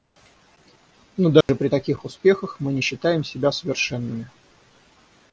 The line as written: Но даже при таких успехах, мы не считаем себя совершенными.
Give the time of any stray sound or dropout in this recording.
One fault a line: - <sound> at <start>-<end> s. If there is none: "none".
- dropout at 1.4-1.5 s